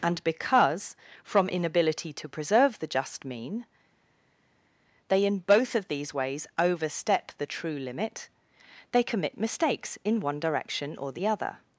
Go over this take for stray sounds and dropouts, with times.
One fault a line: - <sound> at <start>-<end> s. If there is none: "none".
none